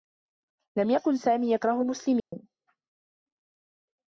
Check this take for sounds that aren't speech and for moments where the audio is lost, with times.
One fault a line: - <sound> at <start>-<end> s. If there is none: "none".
- dropout at 2.2-2.3 s